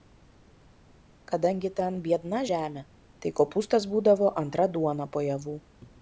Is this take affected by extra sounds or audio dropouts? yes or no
no